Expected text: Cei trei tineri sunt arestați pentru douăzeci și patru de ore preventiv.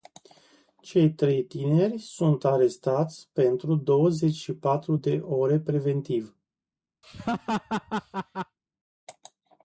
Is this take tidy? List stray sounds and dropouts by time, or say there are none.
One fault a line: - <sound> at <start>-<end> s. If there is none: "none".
- laugh at 7.0-8.6 s